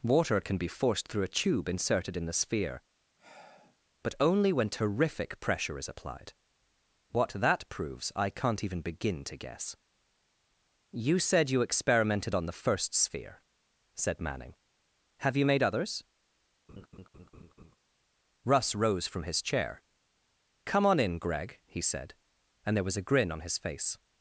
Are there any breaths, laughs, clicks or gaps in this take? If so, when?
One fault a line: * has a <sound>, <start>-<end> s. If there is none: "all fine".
* has a sigh, 3.2-3.8 s
* has a laugh, 16.7-17.8 s